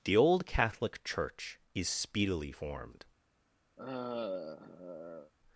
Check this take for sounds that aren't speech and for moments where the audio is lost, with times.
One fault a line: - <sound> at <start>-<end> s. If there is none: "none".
- sigh at 3.8-5.3 s